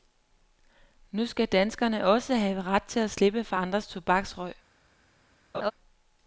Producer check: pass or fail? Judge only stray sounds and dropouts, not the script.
fail